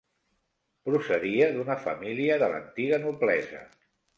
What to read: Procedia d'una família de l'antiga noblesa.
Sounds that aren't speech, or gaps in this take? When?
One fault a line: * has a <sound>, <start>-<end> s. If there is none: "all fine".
all fine